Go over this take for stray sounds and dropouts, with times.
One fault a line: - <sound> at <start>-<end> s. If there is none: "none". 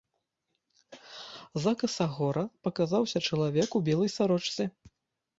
none